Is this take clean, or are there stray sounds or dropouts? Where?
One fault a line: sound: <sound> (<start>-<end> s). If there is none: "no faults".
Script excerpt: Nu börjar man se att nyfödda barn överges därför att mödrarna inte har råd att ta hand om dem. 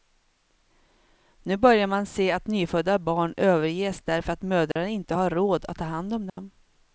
sound: dropout (4.7-4.8 s)
sound: dropout (6.3-6.4 s)